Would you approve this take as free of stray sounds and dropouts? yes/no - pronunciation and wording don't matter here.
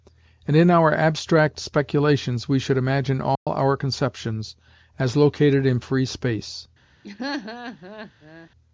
no